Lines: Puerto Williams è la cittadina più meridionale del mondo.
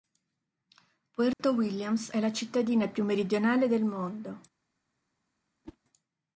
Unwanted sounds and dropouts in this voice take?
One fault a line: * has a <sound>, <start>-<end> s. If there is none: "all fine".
* has a dropout, 1.3-1.4 s
* has a whoosh, 5.6-5.8 s